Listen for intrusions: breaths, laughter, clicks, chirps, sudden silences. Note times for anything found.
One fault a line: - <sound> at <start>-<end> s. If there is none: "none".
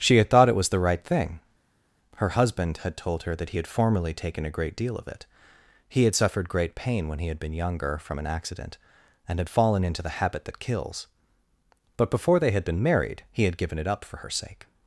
none